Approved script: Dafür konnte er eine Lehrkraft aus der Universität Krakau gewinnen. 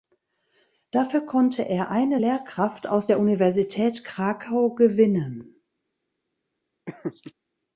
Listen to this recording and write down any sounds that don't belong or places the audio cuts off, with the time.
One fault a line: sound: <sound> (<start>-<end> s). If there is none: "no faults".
sound: laugh (6.9-7.3 s)